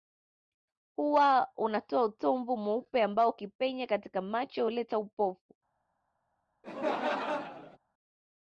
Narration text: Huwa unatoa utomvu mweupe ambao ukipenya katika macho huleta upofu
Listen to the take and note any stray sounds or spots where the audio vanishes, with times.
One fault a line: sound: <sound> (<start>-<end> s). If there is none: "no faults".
sound: laugh (6.6-7.8 s)